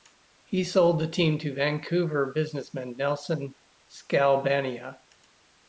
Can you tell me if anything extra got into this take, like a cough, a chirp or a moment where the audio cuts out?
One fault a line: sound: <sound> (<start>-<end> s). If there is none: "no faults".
no faults